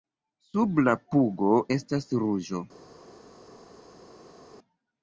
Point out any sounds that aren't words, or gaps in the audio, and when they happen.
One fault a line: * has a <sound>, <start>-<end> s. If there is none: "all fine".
all fine